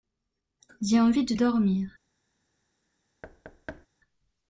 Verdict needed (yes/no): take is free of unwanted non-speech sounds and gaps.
no